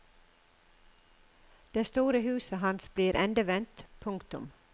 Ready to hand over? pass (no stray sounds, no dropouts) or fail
pass